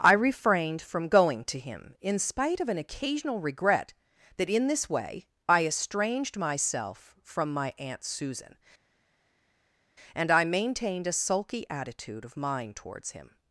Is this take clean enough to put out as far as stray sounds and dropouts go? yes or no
yes